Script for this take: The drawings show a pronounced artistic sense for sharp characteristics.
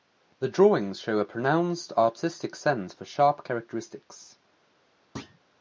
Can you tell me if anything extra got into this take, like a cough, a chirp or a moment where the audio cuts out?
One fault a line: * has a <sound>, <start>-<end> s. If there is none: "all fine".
* has a thud, 5.2-5.4 s